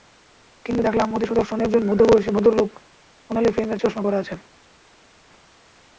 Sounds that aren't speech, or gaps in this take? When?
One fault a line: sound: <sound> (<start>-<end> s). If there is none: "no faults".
no faults